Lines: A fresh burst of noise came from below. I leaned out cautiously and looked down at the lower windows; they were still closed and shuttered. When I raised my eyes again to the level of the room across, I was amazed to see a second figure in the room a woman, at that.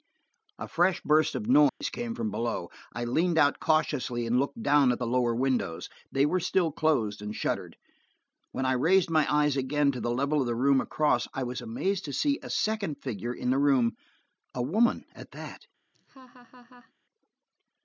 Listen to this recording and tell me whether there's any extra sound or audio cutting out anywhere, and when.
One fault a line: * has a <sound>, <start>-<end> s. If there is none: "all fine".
* has a dropout, 1.7-1.8 s
* has a laugh, 15.9-16.9 s